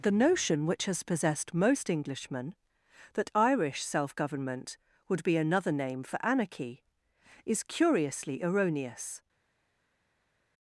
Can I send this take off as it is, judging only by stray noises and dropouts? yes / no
yes